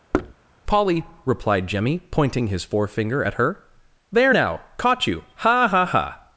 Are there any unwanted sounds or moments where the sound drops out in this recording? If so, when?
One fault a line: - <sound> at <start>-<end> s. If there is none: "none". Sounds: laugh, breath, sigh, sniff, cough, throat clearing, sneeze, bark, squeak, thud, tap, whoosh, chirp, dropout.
- thud at 0.1-0.3 s